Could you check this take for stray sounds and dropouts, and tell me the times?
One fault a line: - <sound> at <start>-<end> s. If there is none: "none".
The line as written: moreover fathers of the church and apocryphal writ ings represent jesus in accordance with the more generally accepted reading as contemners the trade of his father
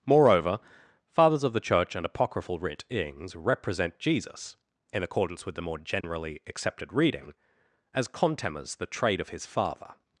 - dropout at 6.0-6.0 s